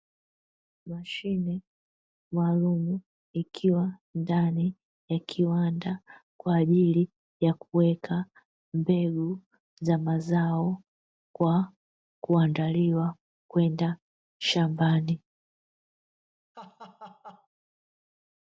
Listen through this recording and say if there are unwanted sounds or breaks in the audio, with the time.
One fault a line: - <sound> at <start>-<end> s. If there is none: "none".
- laugh at 16.5-17.5 s